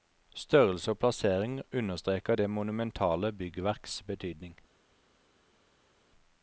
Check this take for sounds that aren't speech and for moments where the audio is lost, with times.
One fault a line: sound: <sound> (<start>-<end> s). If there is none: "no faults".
no faults